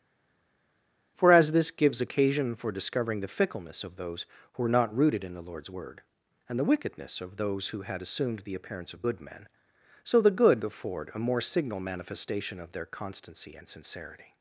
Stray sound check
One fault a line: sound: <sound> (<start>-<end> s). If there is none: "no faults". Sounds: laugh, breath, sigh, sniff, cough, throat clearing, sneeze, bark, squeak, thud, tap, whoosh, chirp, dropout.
no faults